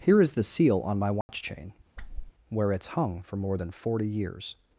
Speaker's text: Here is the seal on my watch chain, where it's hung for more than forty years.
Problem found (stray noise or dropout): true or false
true